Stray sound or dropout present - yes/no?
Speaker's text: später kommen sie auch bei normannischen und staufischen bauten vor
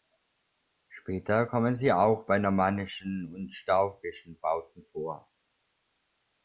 no